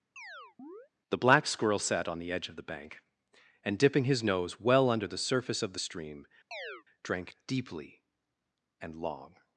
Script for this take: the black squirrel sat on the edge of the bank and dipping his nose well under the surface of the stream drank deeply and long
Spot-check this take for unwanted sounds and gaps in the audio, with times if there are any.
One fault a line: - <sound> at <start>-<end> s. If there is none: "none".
- chirp at 0.2-0.9 s
- chirp at 6.5-6.8 s